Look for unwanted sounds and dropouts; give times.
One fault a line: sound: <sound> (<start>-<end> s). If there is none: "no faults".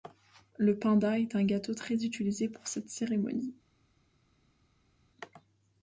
no faults